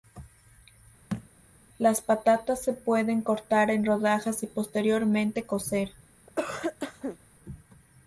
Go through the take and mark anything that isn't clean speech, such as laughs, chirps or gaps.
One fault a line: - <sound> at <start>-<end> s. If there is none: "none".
- thud at 1.1-1.3 s
- cough at 6.3-7.2 s